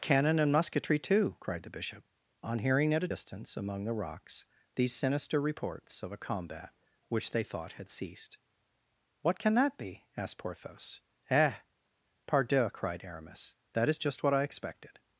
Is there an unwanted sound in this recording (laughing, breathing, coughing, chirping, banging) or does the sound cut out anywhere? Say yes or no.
no